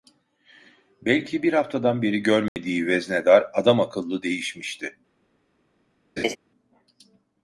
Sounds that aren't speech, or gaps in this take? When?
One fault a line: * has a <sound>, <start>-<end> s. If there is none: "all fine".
* has a dropout, 2.5-2.6 s
* has a laugh, 6.2-6.4 s